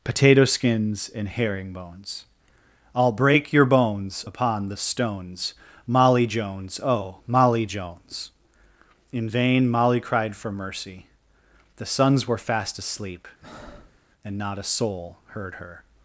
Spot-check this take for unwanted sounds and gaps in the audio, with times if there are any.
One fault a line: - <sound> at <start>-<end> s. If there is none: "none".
- breath at 13.4-14.0 s